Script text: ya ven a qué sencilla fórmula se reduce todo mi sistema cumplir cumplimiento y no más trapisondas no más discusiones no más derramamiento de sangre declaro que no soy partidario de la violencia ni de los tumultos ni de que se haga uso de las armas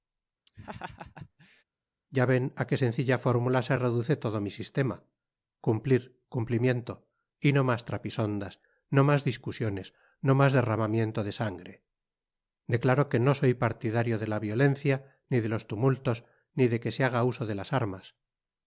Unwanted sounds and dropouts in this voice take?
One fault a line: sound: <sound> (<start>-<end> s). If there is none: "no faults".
sound: laugh (0.5-1.6 s)